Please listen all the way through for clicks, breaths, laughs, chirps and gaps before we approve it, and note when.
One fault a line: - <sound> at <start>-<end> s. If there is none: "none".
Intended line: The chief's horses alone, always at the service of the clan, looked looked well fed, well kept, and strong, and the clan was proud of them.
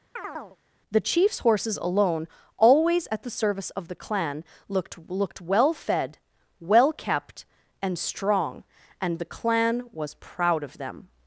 - chirp at 0.2-0.6 s